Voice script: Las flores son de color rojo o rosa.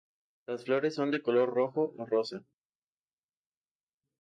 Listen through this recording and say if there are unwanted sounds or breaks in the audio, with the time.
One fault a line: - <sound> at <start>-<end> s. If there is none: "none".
none